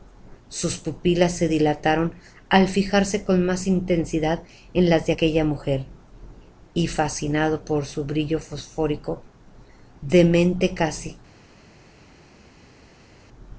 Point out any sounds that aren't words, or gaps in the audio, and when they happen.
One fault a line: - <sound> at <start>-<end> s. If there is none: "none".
none